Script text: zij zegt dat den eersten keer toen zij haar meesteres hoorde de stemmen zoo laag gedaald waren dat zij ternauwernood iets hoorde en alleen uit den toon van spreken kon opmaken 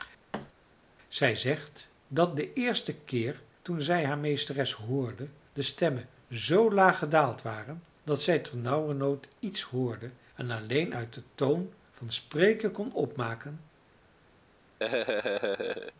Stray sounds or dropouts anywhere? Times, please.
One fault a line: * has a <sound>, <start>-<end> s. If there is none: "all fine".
* has a thud, 0.3-0.5 s
* has a laugh, 14.8-15.9 s